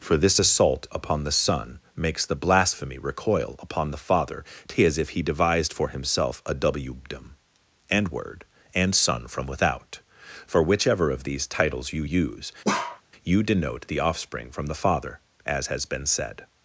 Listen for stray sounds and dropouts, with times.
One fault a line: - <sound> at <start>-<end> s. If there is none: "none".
- bark at 12.6-13.0 s